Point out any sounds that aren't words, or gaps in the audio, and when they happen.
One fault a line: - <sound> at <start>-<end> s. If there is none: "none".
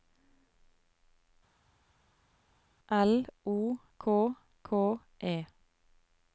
none